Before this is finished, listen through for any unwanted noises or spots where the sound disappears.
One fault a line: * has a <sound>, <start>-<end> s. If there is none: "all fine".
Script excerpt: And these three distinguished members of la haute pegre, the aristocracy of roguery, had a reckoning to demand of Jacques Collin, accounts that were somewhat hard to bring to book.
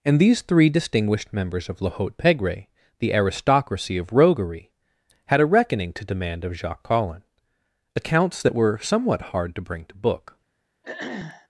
* has a throat clearing, 10.8-11.5 s